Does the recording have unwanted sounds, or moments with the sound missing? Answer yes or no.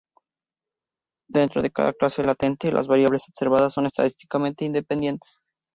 no